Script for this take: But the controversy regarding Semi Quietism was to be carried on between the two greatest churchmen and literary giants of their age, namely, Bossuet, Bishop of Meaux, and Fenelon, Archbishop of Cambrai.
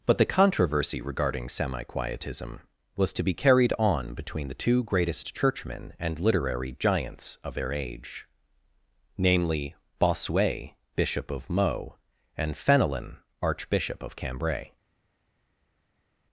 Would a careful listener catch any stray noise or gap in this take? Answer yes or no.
no